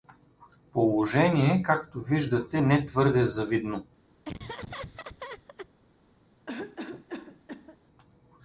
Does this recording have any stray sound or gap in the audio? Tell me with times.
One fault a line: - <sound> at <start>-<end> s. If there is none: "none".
- laugh at 4.2-5.7 s
- cough at 6.5-7.8 s